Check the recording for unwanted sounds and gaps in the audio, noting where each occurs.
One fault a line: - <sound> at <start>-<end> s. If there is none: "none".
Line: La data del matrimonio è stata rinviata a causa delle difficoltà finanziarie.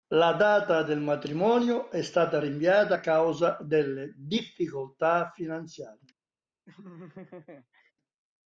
- laugh at 6.7-7.9 s